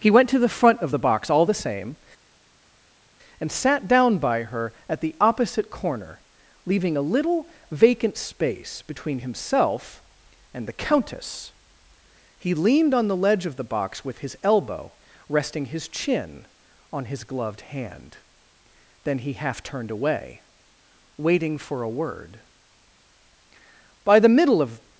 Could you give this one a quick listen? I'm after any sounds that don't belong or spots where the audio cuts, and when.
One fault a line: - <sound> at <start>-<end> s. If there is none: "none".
none